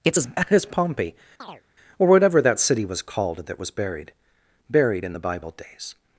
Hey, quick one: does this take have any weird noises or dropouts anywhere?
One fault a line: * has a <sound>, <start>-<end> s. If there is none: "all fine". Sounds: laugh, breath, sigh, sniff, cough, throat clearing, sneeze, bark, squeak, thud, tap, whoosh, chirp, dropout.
* has a chirp, 1.4-1.6 s